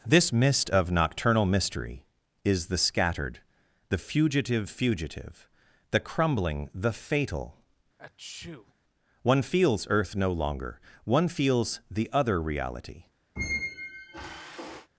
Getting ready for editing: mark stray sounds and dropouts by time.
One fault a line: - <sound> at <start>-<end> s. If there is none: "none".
- sneeze at 8.0-8.7 s
- squeak at 13.4-14.9 s